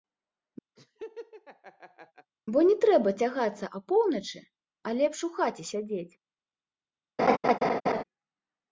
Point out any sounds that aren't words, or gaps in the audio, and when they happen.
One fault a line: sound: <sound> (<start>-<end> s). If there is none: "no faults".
sound: laugh (0.8-2.3 s)
sound: laugh (7.2-8.0 s)